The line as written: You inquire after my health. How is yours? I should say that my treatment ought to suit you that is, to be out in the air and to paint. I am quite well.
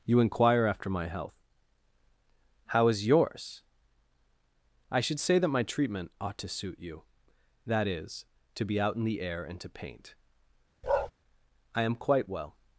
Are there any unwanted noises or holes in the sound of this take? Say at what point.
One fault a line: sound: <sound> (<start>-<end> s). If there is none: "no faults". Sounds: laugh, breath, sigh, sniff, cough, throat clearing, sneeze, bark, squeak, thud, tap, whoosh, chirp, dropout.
sound: bark (10.8-11.1 s)